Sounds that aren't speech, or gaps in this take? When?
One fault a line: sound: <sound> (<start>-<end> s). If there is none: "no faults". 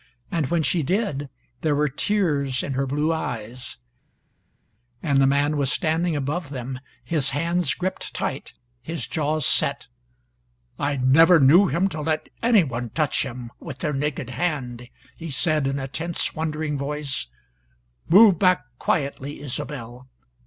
no faults